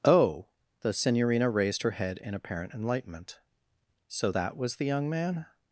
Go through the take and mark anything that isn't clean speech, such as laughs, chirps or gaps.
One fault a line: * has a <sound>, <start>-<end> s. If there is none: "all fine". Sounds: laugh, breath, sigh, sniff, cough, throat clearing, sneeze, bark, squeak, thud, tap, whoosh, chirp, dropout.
all fine